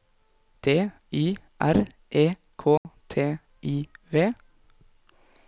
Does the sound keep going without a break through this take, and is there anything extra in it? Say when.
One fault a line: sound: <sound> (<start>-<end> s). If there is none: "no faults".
sound: dropout (2.8-2.9 s)